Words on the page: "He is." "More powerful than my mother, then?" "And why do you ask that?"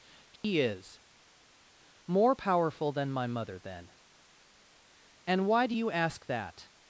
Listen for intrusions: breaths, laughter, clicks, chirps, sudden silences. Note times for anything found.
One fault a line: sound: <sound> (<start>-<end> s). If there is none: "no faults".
sound: dropout (0.4-0.4 s)